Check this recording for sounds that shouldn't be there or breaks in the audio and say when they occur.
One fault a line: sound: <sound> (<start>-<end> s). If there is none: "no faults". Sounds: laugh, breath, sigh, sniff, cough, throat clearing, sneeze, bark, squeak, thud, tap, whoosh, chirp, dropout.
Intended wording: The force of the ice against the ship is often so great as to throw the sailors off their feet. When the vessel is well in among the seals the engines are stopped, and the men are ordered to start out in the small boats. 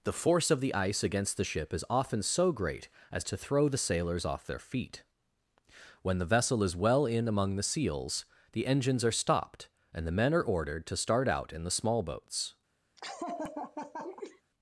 sound: laugh (13.0-14.4 s)